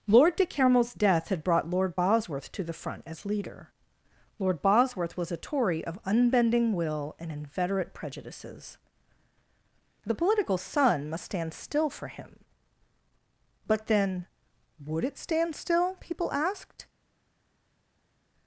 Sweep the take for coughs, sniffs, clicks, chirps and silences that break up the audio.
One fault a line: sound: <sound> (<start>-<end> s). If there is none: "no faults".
no faults